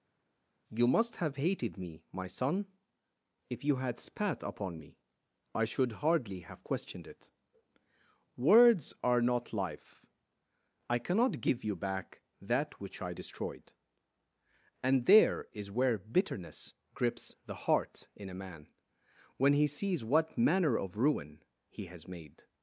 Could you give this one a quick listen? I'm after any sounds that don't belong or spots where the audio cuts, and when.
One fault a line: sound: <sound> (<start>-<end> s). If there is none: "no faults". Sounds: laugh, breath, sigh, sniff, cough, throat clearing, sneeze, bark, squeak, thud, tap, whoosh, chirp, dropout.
no faults